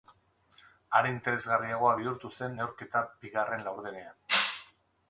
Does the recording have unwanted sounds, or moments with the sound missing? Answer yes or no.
no